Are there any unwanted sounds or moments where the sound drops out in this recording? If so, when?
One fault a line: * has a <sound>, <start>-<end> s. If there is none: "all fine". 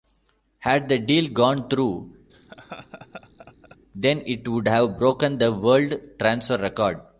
* has a laugh, 2.3-3.8 s